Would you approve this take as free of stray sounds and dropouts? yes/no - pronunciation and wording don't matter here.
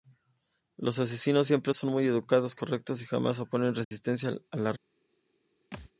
no